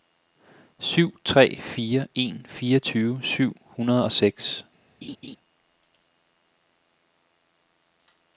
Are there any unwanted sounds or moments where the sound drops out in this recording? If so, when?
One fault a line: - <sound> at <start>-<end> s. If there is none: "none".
- laugh at 5.0-5.4 s